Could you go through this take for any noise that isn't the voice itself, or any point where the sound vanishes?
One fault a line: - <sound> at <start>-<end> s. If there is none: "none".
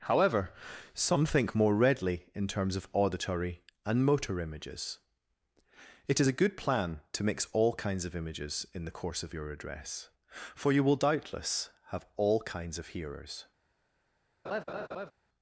- laugh at 14.4-15.1 s